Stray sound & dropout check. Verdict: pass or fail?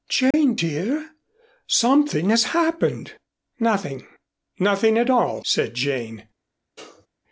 fail